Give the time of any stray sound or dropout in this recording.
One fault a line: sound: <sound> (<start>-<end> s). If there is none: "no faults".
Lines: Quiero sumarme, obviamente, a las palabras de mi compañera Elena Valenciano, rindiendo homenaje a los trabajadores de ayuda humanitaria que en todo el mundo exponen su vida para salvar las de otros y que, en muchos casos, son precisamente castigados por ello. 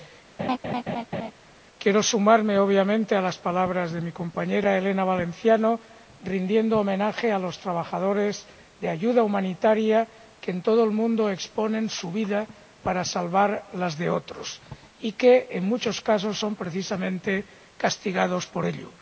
sound: laugh (0.4-1.3 s)